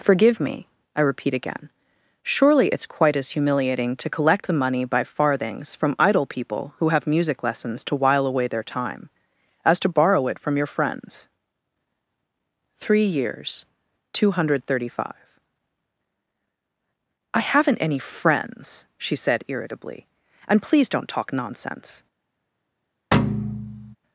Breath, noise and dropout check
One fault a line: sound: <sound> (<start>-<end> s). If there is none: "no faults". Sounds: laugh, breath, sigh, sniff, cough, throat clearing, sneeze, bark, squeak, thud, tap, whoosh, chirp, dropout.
sound: thud (23.1-24.0 s)